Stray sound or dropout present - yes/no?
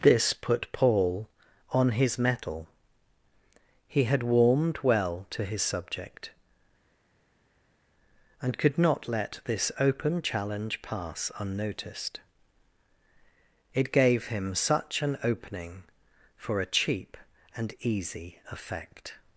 no